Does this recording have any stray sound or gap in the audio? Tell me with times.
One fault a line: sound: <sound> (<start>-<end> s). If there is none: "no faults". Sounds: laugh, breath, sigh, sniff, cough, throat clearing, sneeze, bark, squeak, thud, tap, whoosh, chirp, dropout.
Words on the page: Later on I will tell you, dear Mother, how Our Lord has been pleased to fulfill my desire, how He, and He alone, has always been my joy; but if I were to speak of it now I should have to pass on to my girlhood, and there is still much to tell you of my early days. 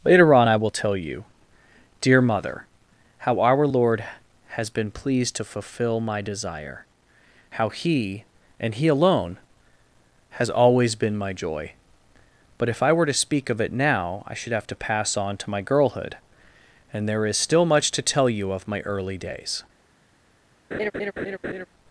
sound: laugh (20.7-21.7 s)